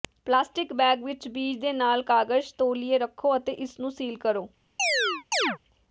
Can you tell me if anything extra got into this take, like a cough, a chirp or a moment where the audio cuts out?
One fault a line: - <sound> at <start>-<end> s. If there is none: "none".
- chirp at 4.8-5.6 s